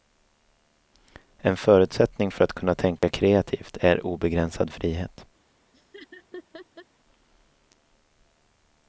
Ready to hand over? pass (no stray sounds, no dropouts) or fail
fail